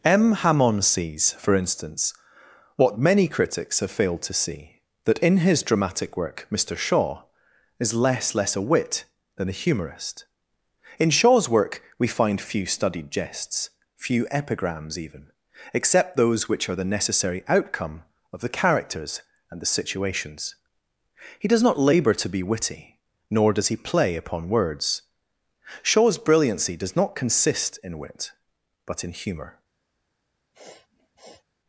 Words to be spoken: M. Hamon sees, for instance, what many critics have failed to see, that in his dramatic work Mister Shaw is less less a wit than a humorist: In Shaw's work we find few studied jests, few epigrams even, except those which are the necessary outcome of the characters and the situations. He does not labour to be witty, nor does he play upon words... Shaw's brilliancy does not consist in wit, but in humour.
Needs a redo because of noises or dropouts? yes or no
yes